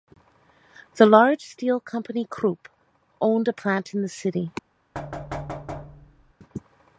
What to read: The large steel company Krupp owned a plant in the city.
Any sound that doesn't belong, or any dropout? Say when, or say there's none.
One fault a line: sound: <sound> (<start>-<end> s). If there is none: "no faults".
sound: thud (4.9-6.3 s)